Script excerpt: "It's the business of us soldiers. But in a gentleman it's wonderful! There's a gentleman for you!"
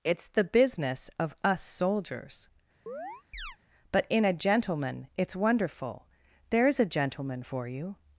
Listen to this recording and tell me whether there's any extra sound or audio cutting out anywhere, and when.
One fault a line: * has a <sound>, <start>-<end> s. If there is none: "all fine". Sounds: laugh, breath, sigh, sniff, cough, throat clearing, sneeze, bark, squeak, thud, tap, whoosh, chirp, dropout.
* has a chirp, 2.9-3.6 s